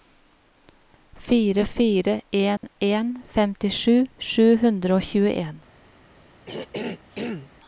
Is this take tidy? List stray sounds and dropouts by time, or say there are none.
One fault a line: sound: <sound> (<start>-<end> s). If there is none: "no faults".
sound: dropout (2.6-2.6 s)
sound: throat clearing (6.5-7.5 s)